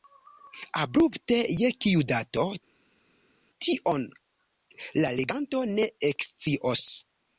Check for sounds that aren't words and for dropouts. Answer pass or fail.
pass